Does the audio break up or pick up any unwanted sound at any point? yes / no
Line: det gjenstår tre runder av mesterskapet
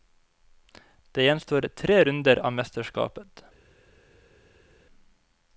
no